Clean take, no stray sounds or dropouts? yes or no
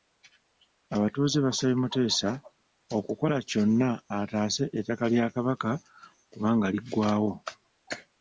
yes